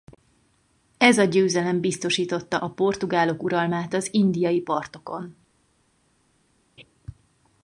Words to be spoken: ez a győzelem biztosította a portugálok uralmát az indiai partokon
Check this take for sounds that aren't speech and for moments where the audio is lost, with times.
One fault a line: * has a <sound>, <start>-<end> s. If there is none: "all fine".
all fine